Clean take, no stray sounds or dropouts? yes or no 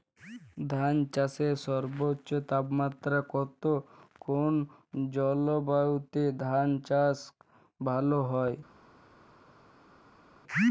yes